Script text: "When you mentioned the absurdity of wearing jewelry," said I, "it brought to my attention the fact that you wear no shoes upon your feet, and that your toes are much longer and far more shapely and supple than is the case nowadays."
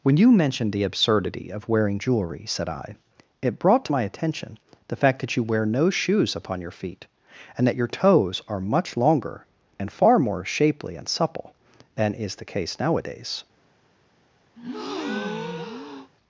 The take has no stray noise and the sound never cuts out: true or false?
false